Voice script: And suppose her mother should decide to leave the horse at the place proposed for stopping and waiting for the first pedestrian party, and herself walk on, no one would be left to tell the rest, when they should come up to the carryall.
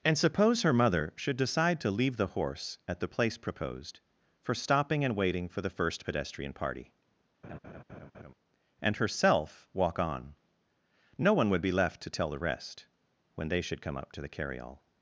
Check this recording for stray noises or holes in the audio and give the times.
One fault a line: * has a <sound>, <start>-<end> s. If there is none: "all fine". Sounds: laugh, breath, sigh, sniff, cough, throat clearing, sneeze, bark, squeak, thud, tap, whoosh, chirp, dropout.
* has a laugh, 7.4-8.3 s